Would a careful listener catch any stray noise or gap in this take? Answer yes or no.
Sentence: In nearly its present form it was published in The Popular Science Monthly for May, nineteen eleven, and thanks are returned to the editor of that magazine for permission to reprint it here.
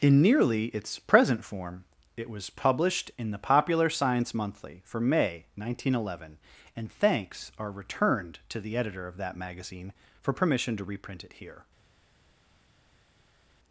no